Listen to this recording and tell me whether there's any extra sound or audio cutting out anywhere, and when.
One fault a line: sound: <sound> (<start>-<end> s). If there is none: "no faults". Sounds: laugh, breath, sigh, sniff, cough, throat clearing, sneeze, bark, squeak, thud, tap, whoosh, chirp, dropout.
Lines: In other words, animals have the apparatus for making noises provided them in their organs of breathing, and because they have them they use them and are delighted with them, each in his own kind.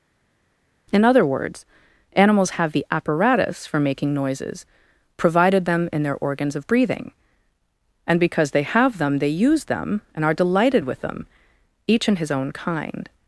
no faults